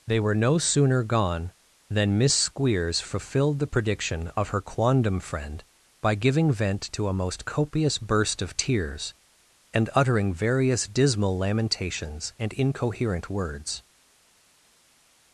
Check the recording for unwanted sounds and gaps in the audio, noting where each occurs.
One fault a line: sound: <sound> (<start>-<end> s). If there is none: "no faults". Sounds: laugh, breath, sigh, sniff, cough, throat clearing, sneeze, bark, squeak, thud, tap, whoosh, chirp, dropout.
no faults